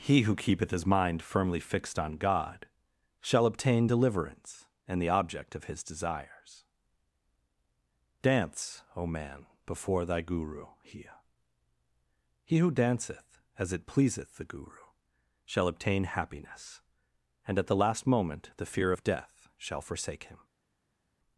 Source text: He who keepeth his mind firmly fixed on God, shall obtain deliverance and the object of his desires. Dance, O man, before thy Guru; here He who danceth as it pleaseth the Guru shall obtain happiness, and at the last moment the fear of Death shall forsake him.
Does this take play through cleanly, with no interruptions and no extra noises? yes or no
yes